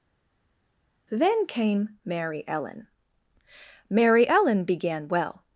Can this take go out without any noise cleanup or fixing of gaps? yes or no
yes